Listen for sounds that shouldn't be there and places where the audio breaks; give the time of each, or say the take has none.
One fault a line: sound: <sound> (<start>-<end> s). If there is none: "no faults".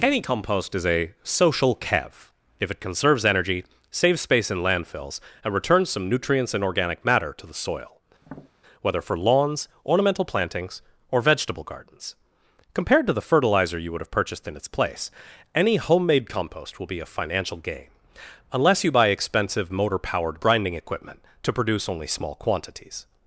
sound: tap (8.2-8.5 s)